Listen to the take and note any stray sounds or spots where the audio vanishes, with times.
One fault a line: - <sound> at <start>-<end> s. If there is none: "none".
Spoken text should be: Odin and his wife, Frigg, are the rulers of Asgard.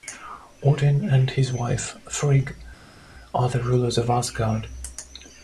none